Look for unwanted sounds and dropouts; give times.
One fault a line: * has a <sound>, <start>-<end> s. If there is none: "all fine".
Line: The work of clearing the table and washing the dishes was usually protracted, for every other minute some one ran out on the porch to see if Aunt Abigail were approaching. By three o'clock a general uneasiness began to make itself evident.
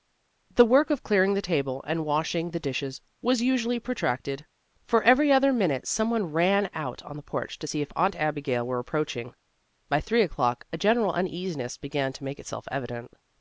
all fine